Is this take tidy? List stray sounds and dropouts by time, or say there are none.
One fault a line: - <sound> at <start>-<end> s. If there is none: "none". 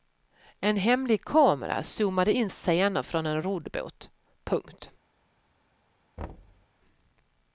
- thud at 6.2-6.7 s